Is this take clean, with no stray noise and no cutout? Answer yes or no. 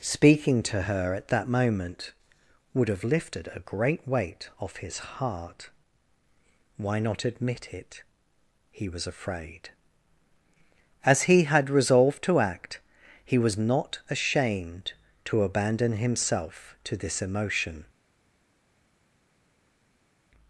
yes